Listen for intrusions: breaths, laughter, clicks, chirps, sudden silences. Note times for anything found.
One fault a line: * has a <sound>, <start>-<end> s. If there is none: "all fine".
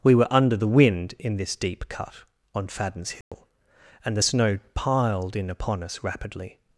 * has a dropout, 3.2-3.3 s